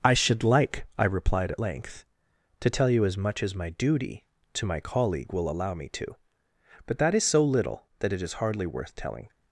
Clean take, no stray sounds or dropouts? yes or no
yes